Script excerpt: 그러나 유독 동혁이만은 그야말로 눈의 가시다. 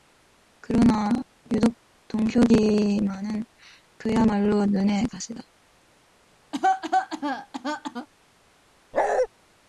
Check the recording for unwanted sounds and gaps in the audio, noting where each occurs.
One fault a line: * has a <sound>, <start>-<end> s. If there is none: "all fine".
* has a cough, 6.5-8.1 s
* has a bark, 8.9-9.3 s